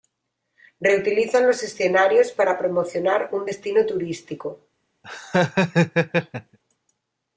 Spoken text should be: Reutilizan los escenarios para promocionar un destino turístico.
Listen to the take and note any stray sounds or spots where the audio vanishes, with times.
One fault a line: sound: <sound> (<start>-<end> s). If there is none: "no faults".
sound: laugh (5.0-6.6 s)